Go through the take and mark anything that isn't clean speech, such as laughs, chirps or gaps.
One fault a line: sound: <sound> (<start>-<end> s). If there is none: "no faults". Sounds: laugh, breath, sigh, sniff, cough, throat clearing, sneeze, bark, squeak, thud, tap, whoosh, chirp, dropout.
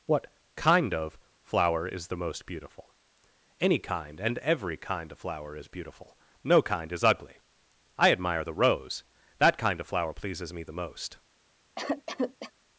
sound: cough (11.8-12.5 s)